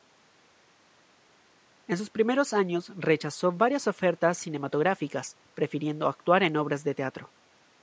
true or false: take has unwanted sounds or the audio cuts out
false